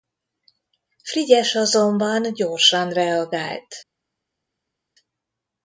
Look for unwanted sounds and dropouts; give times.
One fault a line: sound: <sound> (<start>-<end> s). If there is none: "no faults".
no faults